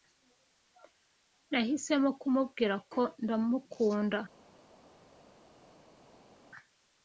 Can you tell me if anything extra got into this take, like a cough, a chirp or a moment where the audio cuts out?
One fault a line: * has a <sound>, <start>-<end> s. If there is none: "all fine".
all fine